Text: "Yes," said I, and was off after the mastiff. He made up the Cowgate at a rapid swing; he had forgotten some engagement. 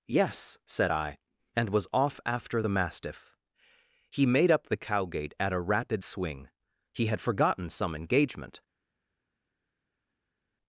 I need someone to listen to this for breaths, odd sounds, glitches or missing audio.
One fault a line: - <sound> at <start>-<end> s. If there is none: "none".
none